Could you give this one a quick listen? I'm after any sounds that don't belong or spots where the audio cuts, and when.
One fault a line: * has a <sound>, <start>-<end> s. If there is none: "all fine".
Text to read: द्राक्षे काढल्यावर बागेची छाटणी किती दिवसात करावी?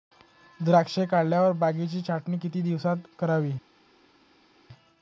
all fine